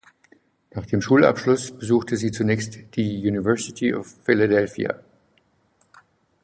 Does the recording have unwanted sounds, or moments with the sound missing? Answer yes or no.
no